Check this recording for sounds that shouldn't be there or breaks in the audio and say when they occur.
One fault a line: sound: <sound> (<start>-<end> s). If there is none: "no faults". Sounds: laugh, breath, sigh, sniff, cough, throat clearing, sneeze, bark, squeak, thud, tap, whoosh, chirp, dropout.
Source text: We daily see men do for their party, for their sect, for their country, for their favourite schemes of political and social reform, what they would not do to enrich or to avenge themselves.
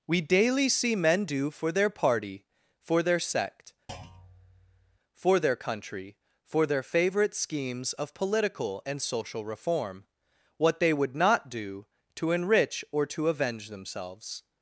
sound: thud (3.9-5.0 s)